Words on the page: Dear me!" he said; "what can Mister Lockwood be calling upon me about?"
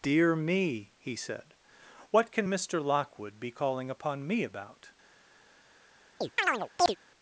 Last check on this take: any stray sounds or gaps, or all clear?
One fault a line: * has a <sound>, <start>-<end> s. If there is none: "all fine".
* has a chirp, 6.2-7.0 s